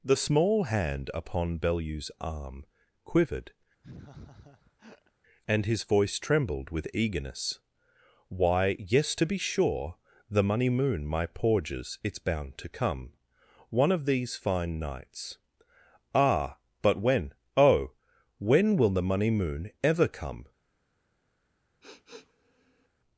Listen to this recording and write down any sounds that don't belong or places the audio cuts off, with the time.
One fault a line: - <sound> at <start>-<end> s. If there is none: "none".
- laugh at 3.8-5.1 s
- sniff at 21.8-22.9 s